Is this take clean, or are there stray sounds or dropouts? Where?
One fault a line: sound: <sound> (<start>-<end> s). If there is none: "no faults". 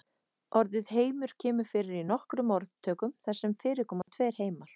sound: dropout (4.0-4.1 s)